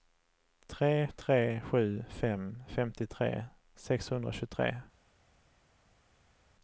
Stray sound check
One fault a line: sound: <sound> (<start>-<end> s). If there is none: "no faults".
no faults